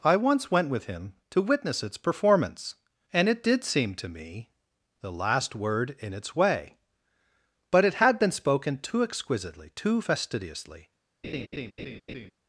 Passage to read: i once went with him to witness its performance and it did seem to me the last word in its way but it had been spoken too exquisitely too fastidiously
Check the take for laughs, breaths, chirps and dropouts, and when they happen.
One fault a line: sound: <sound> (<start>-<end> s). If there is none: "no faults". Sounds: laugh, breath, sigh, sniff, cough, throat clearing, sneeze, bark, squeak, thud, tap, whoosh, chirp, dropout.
sound: laugh (11.2-12.3 s)